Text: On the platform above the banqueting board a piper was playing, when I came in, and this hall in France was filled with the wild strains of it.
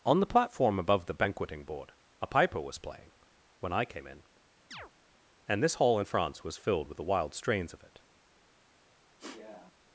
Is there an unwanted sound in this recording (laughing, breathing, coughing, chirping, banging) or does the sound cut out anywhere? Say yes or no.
yes